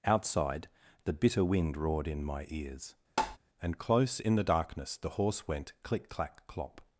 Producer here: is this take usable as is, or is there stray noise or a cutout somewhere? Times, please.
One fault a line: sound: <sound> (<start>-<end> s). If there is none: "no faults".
sound: tap (3.2-3.4 s)